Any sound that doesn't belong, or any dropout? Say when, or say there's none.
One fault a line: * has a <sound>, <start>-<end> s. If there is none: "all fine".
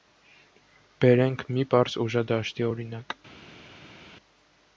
all fine